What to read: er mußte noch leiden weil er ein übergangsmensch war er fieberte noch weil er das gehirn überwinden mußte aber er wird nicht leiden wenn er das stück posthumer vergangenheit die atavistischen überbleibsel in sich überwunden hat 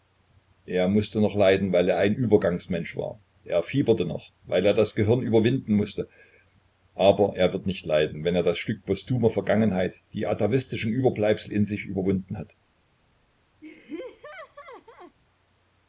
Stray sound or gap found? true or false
true